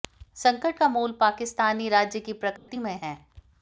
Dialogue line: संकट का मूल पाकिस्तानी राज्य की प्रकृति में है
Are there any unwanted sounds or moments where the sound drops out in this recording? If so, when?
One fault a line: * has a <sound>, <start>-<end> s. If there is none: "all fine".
* has a dropout, 2.6-2.7 s